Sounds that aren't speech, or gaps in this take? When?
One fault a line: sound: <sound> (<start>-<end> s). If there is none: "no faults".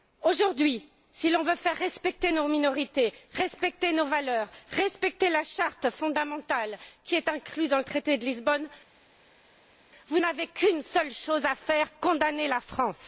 no faults